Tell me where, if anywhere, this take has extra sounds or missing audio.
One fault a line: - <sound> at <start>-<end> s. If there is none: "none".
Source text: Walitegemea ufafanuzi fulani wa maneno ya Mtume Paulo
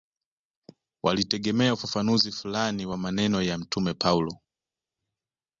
none